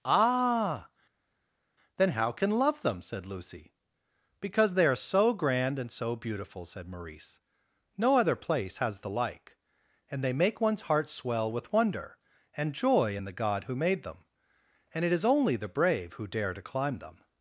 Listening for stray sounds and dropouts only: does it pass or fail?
pass